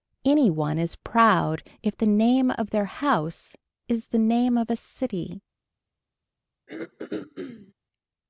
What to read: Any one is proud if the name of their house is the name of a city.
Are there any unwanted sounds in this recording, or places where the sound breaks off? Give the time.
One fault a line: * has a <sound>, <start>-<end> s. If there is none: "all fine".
* has a throat clearing, 6.7-7.7 s